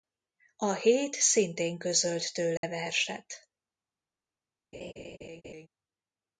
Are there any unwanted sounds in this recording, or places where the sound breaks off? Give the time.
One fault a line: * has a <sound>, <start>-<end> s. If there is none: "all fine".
* has a dropout, 2.6-2.6 s
* has a laugh, 4.7-5.7 s